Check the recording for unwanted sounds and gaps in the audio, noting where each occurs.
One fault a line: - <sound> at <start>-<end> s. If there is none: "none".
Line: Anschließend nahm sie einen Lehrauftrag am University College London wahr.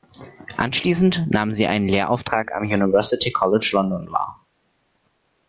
none